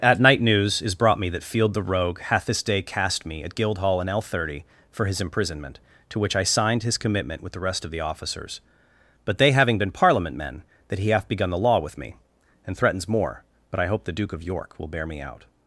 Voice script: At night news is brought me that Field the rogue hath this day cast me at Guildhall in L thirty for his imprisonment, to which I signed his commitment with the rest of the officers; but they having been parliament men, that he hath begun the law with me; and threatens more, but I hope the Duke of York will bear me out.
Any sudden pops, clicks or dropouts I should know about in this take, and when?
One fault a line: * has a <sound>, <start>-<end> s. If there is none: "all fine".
all fine